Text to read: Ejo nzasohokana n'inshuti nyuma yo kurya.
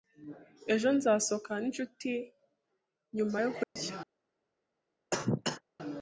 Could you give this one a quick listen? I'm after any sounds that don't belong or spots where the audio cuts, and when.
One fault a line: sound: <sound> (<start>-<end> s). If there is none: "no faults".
sound: dropout (3.6-3.8 s)
sound: cough (5.1-5.6 s)